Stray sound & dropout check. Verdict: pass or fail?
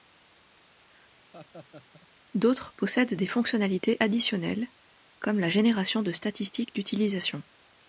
fail